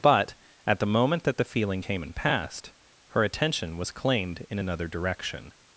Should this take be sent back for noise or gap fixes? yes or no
no